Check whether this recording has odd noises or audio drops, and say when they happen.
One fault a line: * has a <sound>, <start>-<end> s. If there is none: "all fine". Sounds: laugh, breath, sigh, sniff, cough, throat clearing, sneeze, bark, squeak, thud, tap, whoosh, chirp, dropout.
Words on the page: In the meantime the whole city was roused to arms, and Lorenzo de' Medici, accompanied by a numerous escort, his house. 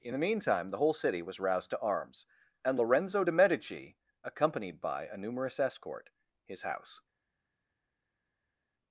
all fine